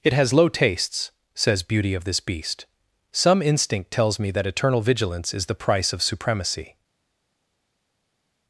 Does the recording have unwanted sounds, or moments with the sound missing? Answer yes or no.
no